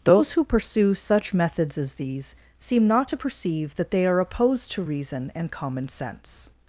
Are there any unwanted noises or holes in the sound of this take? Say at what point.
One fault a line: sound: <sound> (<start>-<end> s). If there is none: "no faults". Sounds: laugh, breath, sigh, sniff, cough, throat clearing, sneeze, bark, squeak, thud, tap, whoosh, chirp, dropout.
no faults